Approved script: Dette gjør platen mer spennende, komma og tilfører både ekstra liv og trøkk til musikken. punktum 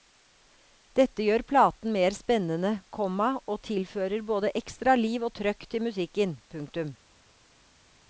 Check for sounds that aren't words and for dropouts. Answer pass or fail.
pass